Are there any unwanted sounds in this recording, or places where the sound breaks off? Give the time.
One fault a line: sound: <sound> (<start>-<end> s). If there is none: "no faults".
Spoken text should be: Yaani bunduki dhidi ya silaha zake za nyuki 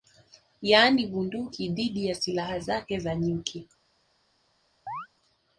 sound: chirp (4.9-5.1 s)